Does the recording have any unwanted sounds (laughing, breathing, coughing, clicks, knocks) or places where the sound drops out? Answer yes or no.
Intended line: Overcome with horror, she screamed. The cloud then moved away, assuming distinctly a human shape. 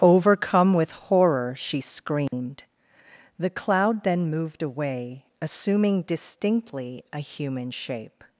yes